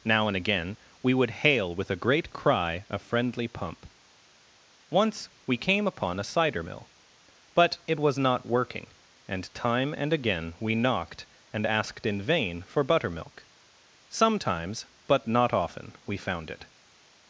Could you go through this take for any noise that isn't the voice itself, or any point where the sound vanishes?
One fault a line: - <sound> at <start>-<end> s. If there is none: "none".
none